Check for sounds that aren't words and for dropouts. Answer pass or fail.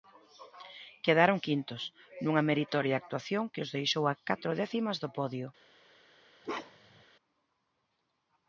fail